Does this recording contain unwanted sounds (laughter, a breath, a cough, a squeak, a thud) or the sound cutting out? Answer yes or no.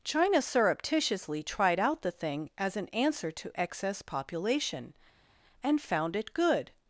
no